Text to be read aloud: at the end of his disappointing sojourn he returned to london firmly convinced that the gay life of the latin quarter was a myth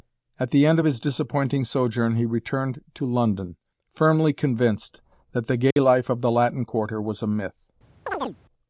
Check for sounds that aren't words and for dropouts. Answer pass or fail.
fail